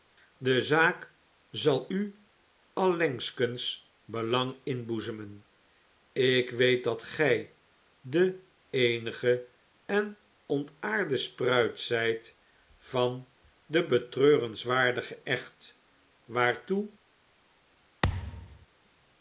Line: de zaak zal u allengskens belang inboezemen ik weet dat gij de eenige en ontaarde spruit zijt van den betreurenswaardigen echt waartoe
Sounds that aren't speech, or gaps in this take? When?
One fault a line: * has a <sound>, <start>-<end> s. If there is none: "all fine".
* has a thud, 18.0-18.7 s